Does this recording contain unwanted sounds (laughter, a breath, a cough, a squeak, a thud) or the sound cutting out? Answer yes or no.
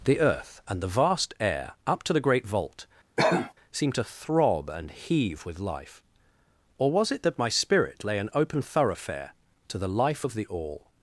yes